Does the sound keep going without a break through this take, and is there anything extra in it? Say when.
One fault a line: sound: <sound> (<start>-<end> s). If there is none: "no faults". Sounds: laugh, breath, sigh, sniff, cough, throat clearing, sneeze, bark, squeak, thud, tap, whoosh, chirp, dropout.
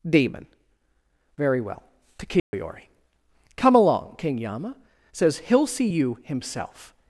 sound: dropout (2.4-2.5 s)